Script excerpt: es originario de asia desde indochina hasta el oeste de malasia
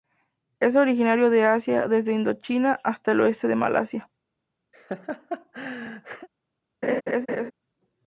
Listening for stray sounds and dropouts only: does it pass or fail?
fail